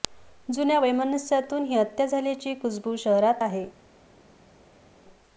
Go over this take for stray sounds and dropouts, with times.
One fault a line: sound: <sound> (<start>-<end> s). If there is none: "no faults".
no faults